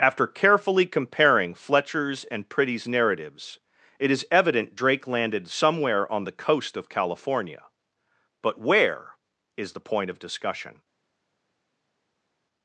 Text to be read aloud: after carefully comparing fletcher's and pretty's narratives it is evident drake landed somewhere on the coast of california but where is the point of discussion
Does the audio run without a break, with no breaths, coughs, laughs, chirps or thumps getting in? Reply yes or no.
yes